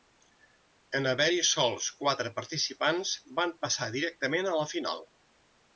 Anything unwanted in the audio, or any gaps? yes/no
no